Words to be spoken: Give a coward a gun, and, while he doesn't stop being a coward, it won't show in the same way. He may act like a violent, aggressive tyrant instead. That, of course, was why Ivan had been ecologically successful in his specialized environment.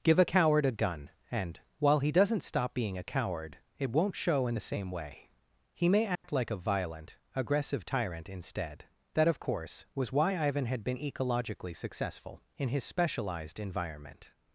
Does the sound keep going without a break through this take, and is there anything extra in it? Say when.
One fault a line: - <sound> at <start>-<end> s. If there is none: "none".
- dropout at 6.2-6.2 s